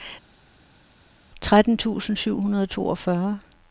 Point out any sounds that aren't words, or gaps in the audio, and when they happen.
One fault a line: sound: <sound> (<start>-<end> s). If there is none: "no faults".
no faults